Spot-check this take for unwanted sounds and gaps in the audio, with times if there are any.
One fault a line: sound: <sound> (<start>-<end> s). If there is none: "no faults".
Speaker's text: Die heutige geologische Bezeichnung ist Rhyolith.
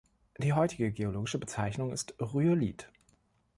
no faults